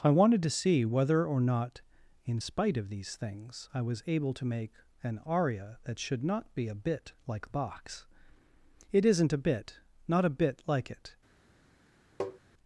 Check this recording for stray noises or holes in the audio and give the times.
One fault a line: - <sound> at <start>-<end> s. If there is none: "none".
- tap at 12.2-12.4 s